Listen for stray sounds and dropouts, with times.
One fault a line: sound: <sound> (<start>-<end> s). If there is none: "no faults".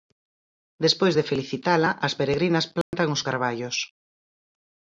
sound: dropout (2.8-2.9 s)